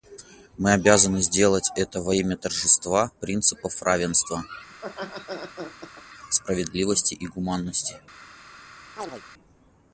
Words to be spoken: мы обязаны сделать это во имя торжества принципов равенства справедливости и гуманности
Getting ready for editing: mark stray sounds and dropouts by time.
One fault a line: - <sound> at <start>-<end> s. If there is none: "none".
- laugh at 4.7-6.0 s
- chirp at 9.0-9.2 s